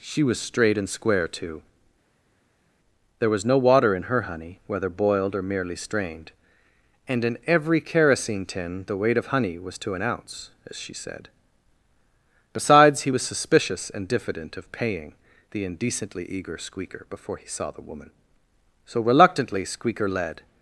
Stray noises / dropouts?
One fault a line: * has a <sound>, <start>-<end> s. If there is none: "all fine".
all fine